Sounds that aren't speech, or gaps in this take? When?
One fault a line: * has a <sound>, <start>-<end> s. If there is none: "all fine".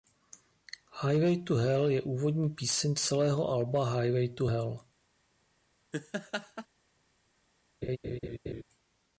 * has a laugh, 5.9-6.7 s
* has a laugh, 7.8-8.6 s